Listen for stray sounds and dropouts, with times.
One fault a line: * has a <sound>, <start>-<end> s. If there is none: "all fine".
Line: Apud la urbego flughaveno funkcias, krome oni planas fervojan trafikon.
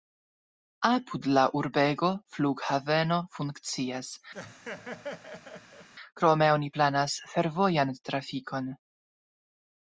* has a laugh, 4.3-5.9 s